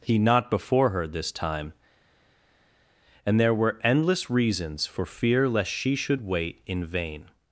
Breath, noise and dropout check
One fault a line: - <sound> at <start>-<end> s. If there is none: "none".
none